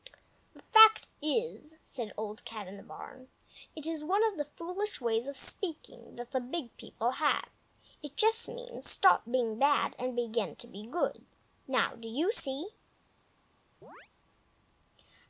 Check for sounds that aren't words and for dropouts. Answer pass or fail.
fail